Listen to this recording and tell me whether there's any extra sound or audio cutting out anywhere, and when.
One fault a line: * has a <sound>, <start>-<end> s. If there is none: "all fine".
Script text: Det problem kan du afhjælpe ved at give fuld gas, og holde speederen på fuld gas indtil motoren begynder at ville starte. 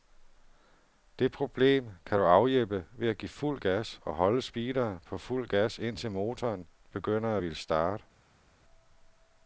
all fine